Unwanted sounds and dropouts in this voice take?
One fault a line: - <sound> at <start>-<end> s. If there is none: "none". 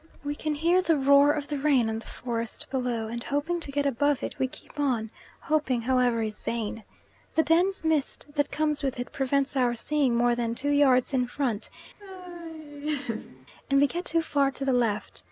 - laugh at 12.0-13.5 s